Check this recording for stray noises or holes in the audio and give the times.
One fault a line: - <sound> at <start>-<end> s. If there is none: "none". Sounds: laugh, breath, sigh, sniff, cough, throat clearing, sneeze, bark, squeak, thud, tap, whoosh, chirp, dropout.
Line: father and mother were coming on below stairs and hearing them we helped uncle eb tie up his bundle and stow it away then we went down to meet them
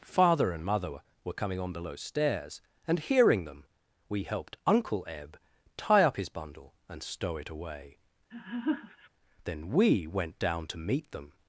- laugh at 8.3-9.1 s